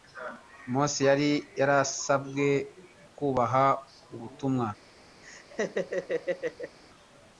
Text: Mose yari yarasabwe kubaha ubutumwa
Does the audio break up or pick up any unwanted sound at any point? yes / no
yes